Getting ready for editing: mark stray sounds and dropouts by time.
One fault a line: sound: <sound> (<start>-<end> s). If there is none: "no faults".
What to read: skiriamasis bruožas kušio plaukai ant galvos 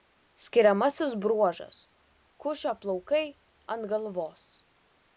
no faults